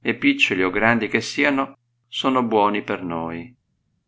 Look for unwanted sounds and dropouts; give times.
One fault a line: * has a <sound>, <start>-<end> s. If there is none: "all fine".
all fine